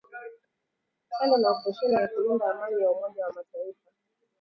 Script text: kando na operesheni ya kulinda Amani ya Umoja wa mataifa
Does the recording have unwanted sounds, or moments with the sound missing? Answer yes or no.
no